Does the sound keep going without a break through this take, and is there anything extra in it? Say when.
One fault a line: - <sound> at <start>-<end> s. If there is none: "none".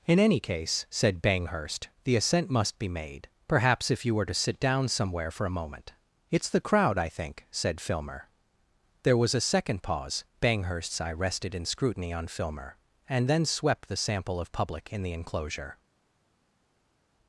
none